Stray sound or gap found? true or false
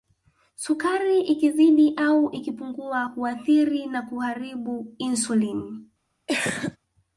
true